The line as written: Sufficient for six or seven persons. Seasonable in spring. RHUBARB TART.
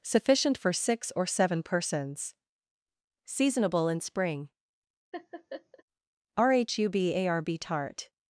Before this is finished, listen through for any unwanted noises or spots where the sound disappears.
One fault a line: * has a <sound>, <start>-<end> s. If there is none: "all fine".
* has a laugh, 5.1-5.8 s